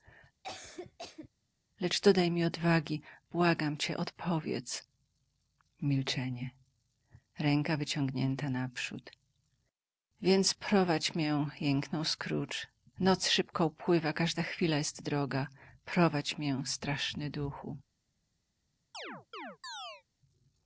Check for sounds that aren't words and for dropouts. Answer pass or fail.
fail